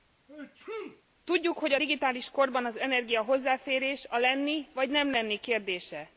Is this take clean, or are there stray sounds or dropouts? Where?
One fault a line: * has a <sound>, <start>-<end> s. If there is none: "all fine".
* has a sneeze, 0.3-1.0 s